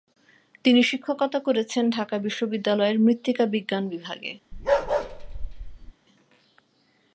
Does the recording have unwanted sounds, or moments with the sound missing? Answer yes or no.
yes